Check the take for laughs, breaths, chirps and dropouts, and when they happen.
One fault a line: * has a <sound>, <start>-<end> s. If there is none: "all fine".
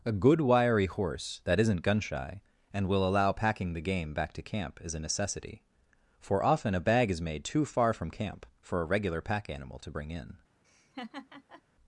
* has a laugh, 10.6-11.6 s